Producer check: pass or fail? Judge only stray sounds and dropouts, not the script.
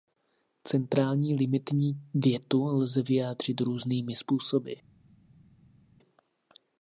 pass